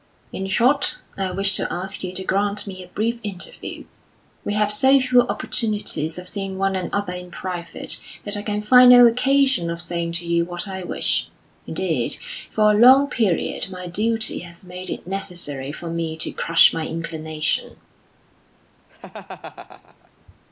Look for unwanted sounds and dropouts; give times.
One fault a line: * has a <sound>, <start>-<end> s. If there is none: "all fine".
* has a laugh, 18.9-20.1 s